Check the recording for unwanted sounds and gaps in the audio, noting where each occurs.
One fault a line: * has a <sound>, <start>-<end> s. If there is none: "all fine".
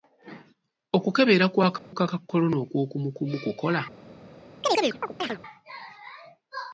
* has a dropout, 1.8-1.9 s
* has a chirp, 4.6-5.4 s